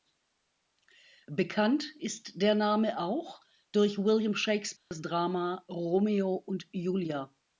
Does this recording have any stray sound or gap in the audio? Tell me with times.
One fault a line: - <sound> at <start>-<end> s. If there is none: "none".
- dropout at 4.8-4.9 s